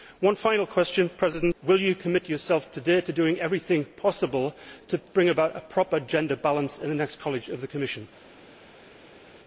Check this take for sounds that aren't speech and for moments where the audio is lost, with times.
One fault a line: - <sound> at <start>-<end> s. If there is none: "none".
none